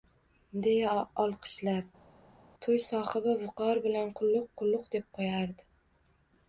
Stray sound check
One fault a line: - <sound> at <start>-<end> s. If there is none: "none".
none